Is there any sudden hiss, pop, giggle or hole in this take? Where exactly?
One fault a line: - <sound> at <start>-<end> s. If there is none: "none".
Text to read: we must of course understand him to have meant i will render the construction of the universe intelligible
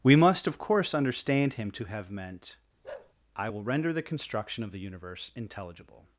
- bark at 2.8-3.1 s